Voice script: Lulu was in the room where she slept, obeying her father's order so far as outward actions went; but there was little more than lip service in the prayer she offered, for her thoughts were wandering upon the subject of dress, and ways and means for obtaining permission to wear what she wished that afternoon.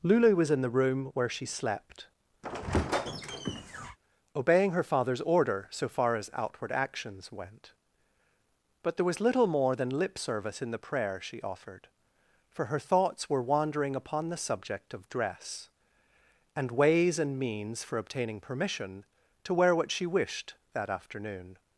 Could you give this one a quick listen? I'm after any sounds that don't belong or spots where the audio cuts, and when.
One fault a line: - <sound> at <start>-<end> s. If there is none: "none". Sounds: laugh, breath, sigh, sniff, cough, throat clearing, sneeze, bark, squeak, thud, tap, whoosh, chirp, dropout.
- squeak at 2.4-4.0 s